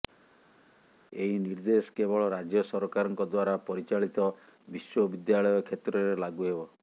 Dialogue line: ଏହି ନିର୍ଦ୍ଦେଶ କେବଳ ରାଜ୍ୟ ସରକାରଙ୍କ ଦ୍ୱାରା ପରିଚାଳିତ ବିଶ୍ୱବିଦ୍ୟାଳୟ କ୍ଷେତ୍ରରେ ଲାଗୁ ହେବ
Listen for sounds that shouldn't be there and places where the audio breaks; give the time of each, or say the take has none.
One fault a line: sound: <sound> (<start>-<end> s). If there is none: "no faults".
no faults